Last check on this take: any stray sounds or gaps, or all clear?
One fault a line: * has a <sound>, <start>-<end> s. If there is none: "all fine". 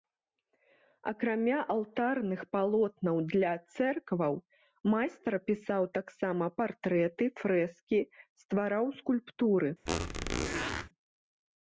* has a squeak, 9.9-10.9 s